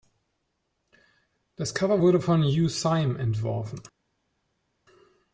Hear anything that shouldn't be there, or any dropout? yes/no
no